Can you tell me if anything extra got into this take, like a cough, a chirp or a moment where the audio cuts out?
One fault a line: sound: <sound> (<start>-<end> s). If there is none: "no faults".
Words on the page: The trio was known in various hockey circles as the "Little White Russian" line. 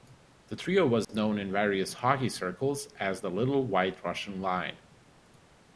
sound: dropout (1.0-1.1 s)